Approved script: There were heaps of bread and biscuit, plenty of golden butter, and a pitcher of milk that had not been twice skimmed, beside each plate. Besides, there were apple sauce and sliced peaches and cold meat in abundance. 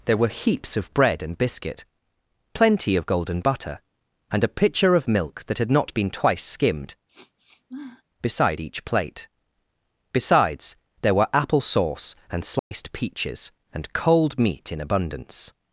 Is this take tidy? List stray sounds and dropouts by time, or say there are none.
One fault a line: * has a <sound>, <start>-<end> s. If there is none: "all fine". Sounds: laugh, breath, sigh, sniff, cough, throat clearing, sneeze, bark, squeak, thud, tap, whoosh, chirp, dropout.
* has a sniff, 7.1-8.0 s
* has a dropout, 12.6-12.7 s